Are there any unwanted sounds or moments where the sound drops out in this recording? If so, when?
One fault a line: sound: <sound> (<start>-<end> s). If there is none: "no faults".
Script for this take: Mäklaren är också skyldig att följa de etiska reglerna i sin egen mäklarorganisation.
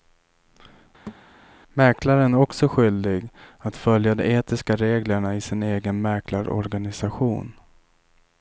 sound: thud (1.1-1.3 s)